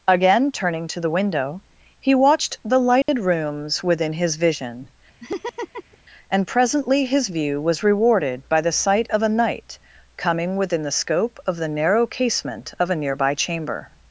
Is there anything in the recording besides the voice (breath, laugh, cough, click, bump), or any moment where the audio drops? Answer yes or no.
yes